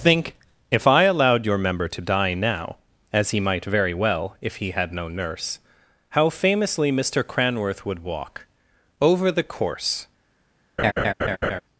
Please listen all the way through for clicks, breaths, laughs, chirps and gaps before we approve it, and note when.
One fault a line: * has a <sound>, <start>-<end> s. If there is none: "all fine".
* has a laugh, 10.8-11.6 s